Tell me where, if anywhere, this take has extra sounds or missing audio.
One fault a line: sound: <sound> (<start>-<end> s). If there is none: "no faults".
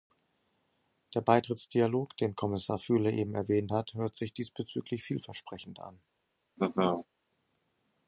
sound: laugh (6.6-7.1 s)